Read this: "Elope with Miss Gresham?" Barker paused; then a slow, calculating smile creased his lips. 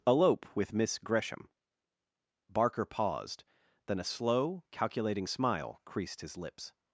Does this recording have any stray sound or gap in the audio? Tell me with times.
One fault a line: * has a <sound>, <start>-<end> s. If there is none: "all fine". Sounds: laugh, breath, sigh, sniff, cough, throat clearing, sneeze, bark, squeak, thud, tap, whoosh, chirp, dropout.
all fine